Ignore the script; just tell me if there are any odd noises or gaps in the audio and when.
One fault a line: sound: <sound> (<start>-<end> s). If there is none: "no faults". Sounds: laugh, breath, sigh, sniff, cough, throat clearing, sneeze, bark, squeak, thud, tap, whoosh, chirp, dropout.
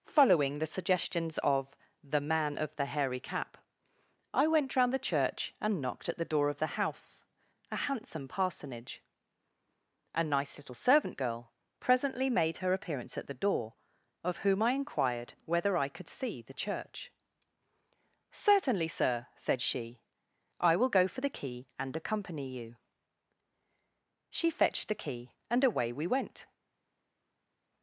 no faults